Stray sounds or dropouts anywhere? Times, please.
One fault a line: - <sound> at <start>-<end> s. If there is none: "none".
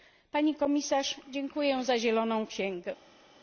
none